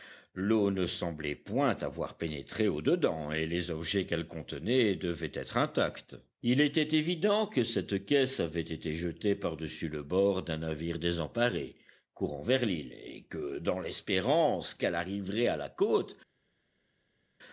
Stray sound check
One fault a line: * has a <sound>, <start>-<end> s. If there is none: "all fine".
all fine